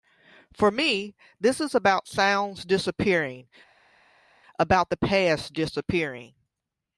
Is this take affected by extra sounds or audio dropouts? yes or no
no